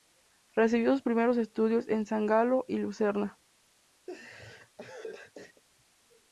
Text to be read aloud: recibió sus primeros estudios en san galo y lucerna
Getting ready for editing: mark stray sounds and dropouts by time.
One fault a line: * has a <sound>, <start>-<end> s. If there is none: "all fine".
* has a laugh, 4.1-5.6 s